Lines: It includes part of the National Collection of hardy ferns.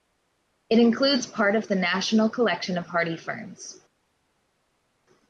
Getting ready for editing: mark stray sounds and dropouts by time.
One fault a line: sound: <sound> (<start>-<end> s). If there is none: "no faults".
no faults